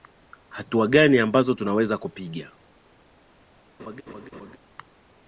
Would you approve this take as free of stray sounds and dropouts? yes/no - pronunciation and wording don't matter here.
no